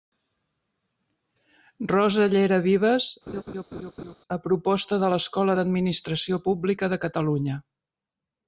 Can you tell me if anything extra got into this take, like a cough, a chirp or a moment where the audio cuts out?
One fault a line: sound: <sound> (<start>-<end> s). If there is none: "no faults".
sound: laugh (3.3-4.2 s)